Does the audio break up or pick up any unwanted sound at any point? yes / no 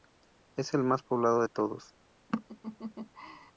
yes